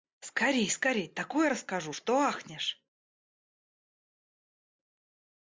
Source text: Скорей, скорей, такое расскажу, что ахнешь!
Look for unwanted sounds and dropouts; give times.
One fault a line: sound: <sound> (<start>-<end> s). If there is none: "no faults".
no faults